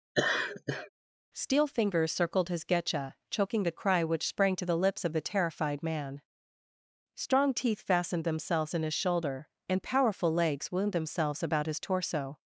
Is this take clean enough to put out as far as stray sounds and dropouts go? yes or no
no